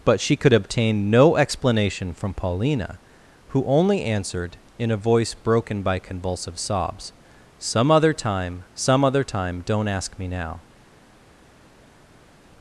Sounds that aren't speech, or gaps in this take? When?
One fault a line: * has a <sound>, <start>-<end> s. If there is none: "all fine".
all fine